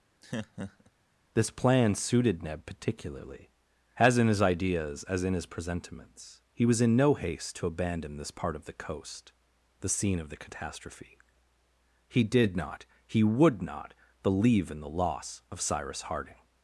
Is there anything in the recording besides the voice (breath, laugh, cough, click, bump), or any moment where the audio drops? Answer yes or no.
yes